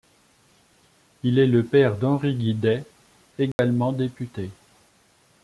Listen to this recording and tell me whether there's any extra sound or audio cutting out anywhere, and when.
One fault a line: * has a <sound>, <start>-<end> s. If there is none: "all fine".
* has a dropout, 3.5-3.6 s